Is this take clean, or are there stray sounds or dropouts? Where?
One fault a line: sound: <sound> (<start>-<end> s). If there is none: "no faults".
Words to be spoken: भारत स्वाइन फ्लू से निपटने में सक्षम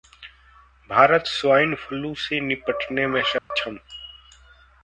sound: dropout (3.4-3.5 s)